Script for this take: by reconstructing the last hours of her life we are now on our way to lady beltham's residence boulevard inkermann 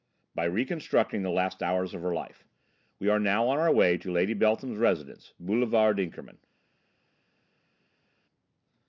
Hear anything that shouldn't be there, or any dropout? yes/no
no